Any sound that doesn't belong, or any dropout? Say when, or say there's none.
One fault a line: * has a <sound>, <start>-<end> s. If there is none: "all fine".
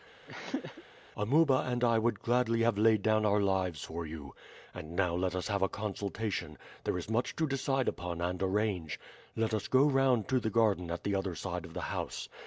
* has a throat clearing, 0.3-0.8 s